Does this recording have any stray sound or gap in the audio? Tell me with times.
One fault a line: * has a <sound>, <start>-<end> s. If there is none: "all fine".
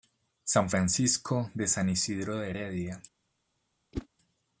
* has a whoosh, 3.9-4.1 s